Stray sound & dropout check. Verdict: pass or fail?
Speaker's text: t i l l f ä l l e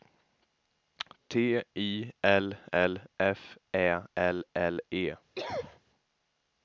fail